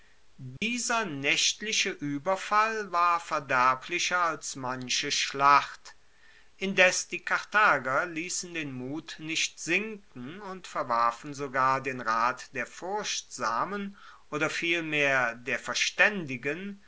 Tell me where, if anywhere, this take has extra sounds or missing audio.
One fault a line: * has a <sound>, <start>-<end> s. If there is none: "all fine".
* has a dropout, 0.6-0.6 s